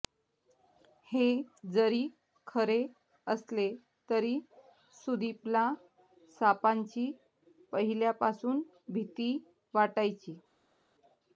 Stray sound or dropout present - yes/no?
no